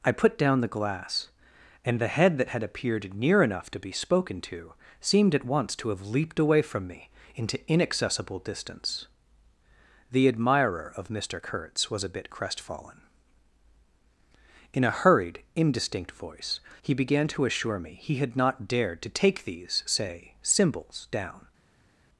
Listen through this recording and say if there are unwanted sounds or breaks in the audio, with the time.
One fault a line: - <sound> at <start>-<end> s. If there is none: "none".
none